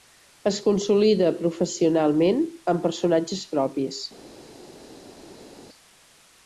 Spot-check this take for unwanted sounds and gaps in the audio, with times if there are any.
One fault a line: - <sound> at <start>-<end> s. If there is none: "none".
none